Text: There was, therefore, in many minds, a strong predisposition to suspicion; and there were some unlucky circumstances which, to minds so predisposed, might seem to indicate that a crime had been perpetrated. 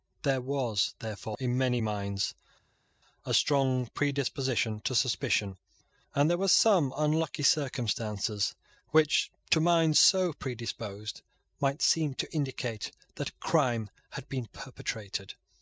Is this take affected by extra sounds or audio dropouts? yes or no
no